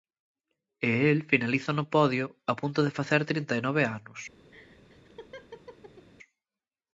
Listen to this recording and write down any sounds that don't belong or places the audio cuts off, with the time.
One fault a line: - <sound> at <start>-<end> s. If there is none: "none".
- laugh at 4.5-6.1 s